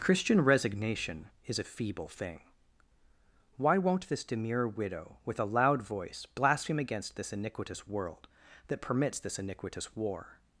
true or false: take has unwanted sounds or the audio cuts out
false